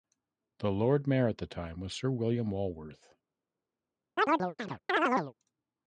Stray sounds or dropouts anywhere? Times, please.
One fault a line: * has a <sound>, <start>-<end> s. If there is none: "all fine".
* has a chirp, 4.2-5.3 s